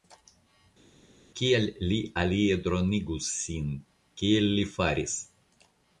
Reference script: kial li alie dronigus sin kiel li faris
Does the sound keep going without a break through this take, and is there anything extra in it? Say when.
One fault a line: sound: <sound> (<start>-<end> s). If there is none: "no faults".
no faults